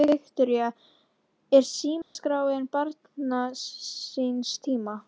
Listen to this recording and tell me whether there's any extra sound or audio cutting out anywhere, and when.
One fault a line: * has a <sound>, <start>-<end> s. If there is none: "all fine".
* has a dropout, 2.0-2.2 s